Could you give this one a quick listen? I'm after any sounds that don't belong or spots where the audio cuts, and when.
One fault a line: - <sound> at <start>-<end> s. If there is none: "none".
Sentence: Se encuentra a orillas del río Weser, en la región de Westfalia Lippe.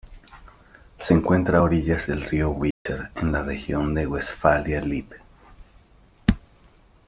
- dropout at 2.7-2.9 s